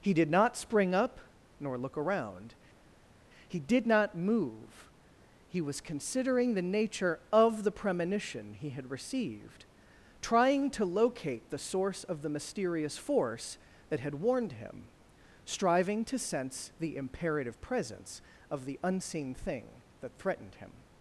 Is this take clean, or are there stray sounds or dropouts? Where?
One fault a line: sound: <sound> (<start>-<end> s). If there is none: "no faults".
no faults